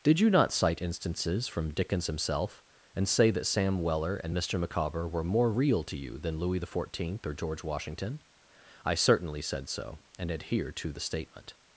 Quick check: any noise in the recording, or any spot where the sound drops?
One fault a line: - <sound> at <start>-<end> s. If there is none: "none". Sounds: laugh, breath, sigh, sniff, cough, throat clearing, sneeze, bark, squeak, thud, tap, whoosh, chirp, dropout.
none